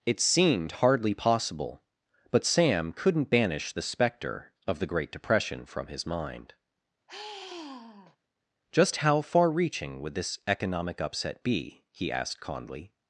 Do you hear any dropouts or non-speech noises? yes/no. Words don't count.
yes